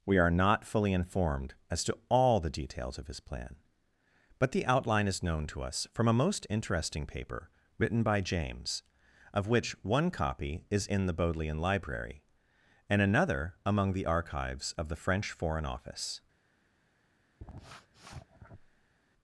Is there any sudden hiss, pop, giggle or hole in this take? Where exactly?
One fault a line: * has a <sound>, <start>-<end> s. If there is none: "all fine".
* has a sniff, 17.4-18.9 s